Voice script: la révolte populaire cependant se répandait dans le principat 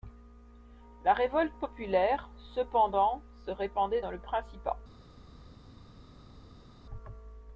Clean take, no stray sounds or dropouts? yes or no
yes